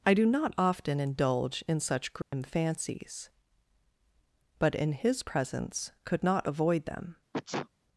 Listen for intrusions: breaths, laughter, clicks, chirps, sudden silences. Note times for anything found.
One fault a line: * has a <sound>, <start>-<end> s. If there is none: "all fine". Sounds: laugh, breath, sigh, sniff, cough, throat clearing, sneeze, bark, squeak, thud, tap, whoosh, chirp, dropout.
* has a dropout, 2.2-2.3 s
* has a sneeze, 7.3-7.7 s